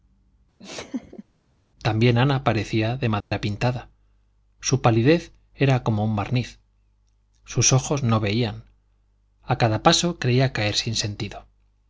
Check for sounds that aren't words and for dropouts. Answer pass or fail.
fail